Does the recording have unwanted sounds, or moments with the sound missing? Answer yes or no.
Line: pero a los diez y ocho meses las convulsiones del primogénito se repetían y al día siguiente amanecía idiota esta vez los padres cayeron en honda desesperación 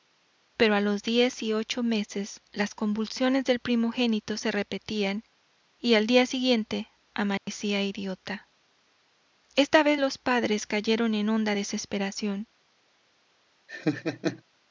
yes